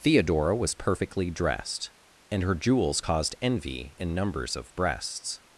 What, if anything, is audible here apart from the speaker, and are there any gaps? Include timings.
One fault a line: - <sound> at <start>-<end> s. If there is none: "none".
none